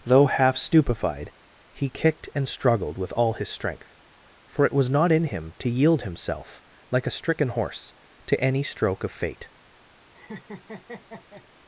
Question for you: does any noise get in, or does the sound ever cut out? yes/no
yes